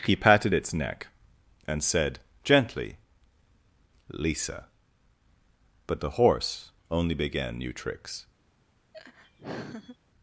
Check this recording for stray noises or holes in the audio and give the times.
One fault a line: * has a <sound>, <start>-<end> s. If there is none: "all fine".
* has a laugh, 8.9-10.0 s